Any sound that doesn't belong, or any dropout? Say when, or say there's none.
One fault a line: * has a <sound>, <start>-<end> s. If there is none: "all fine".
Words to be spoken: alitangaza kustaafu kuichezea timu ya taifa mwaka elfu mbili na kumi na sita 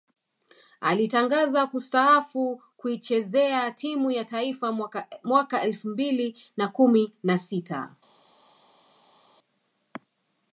all fine